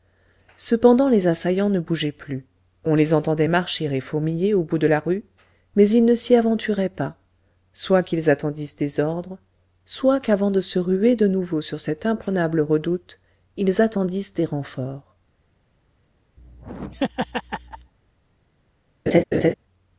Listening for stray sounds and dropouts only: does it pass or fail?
fail